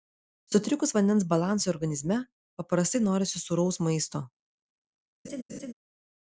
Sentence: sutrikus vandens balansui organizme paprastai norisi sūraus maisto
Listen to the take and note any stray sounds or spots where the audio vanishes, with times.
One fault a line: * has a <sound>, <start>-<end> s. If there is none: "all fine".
* has a laugh, 5.2-5.7 s